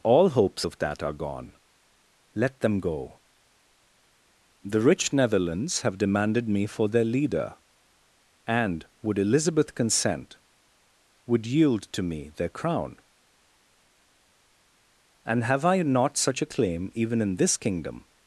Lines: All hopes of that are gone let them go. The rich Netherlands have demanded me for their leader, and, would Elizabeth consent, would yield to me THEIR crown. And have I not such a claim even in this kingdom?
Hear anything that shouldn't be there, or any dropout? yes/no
no